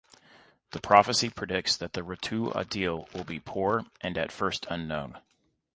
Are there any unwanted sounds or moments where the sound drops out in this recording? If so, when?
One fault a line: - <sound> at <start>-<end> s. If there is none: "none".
none